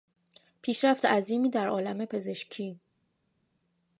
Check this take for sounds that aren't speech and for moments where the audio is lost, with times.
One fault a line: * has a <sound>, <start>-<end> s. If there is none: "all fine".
all fine